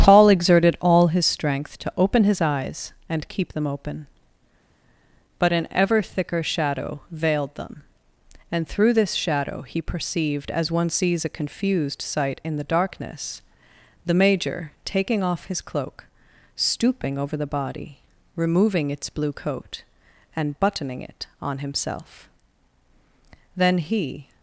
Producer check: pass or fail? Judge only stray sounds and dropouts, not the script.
pass